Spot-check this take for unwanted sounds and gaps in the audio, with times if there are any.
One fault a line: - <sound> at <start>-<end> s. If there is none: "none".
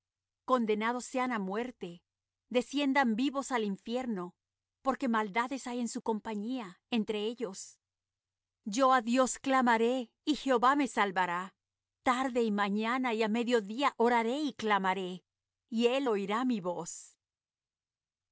none